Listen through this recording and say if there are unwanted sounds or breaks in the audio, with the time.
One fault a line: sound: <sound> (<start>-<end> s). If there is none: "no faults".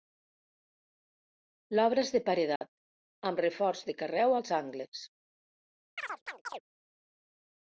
sound: dropout (2.6-2.6 s)
sound: chirp (6.0-6.6 s)